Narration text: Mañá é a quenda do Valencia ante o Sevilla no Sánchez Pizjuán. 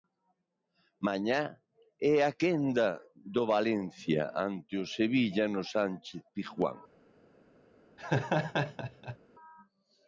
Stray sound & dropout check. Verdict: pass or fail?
fail